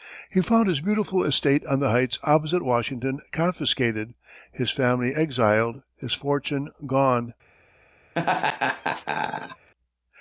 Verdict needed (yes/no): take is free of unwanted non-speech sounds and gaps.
no